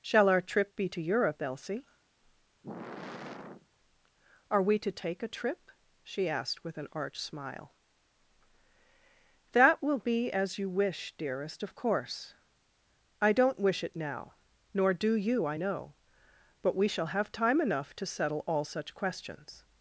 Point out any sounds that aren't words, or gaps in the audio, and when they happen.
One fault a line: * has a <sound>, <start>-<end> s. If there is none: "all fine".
* has a sigh, 2.6-3.7 s